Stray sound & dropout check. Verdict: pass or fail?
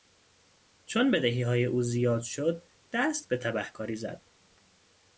pass